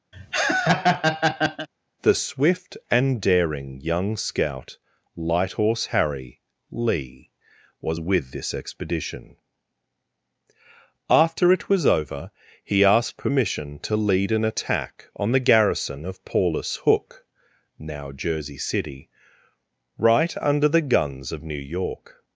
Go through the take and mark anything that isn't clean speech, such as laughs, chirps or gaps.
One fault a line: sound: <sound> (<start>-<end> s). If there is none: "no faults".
sound: laugh (0.1-1.7 s)